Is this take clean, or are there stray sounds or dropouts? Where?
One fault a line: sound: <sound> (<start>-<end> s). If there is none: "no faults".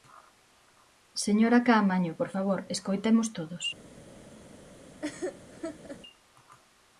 sound: laugh (5.0-6.0 s)